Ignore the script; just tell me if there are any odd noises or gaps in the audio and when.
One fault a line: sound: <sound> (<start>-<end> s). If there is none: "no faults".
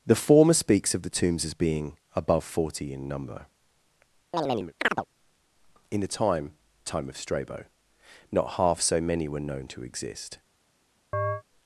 sound: chirp (4.3-5.1 s)
sound: chirp (11.1-11.4 s)